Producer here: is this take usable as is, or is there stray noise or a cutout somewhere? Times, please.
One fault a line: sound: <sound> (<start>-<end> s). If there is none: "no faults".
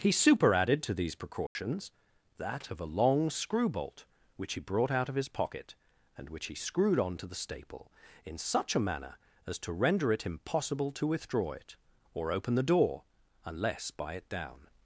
sound: dropout (1.5-1.6 s)